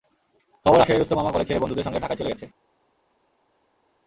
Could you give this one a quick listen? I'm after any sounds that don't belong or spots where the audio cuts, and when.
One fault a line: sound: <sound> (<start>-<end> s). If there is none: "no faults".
no faults